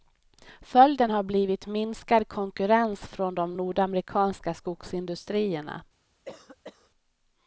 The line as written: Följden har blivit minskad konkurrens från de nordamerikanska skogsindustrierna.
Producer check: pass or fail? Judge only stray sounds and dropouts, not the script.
fail